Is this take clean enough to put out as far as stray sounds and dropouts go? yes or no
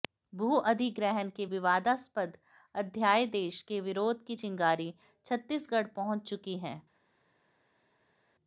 yes